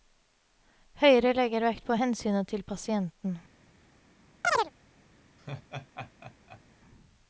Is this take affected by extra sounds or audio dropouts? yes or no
yes